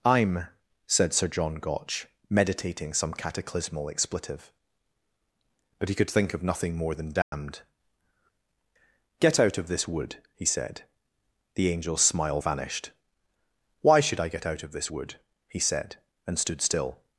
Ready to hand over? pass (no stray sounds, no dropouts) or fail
fail